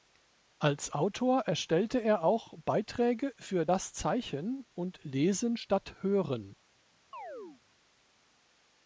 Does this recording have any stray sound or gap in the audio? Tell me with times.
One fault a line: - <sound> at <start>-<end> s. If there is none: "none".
- chirp at 7.1-7.6 s